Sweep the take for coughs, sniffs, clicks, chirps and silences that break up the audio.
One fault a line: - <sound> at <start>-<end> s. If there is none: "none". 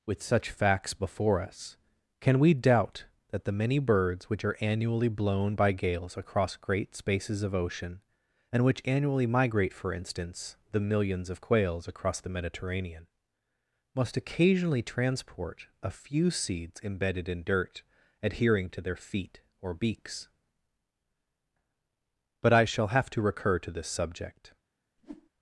- whoosh at 25.0-25.3 s